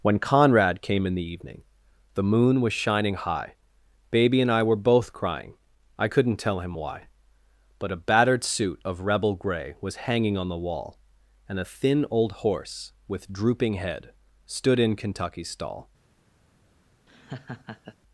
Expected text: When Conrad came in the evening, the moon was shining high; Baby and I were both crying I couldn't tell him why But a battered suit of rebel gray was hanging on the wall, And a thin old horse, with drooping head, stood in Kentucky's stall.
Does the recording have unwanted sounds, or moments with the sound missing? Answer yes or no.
yes